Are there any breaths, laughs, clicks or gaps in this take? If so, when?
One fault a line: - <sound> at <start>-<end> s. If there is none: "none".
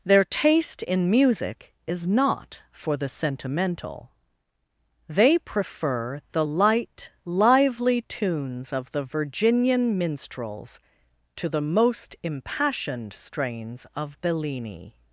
none